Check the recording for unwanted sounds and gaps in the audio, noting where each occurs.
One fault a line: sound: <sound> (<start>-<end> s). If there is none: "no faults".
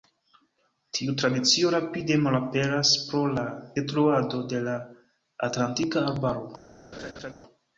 sound: laugh (6.9-7.3 s)